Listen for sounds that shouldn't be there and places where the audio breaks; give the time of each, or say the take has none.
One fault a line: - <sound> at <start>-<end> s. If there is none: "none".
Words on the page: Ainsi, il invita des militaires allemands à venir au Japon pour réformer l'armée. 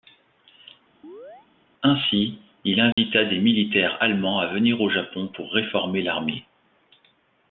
- chirp at 1.0-1.5 s
- dropout at 2.9-3.0 s